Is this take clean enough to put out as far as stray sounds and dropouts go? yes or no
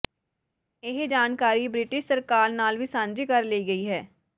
yes